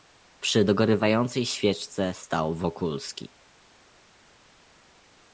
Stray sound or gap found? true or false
false